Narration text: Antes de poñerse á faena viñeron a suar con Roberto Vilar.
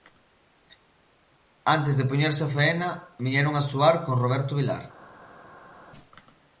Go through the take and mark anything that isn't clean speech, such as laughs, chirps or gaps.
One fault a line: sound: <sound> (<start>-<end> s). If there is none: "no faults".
no faults